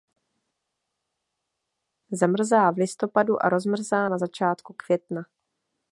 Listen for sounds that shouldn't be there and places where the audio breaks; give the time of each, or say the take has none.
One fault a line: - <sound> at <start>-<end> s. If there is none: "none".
none